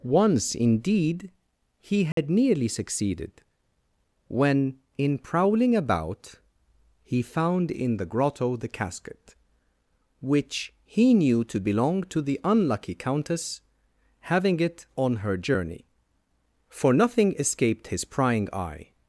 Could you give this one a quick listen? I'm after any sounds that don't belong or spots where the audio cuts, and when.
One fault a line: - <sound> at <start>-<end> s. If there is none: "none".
- dropout at 2.1-2.2 s